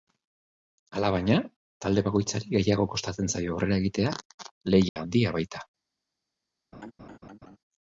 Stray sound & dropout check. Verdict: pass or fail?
fail